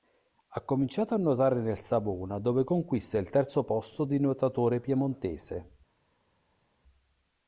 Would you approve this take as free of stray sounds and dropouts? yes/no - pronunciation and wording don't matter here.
yes